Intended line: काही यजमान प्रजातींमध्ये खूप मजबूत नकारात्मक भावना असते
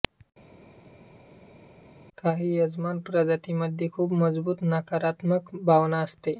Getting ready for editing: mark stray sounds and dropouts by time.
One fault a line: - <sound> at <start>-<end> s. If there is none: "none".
none